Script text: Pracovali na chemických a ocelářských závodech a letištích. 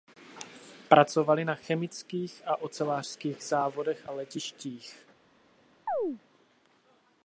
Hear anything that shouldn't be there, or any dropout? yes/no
yes